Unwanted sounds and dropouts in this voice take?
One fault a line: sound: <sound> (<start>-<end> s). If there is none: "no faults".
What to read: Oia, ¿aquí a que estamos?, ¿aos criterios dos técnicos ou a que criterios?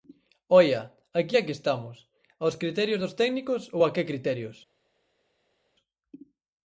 no faults